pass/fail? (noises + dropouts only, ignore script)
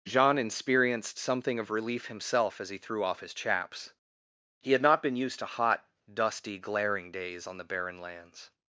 pass